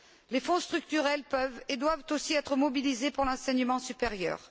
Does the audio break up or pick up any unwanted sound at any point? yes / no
no